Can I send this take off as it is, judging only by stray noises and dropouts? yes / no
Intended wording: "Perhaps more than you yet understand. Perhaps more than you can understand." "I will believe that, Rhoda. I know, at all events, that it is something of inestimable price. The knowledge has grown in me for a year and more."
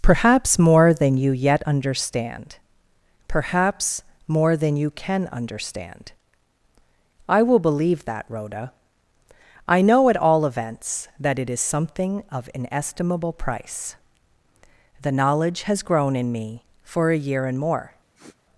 no